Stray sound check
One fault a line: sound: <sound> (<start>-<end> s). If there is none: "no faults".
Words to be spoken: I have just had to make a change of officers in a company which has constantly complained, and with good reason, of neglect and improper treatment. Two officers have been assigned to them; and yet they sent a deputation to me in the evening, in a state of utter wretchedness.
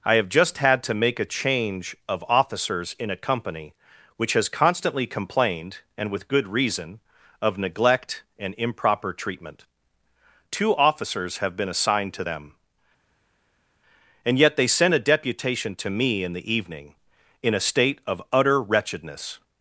no faults